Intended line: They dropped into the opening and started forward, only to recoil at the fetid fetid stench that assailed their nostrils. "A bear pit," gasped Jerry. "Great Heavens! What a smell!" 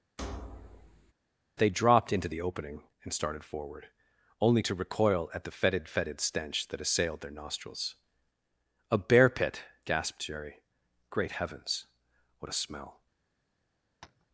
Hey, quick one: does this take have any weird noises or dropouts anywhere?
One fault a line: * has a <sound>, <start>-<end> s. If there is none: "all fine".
* has a thud, 0.2-1.1 s
* has a tap, 14.0-14.3 s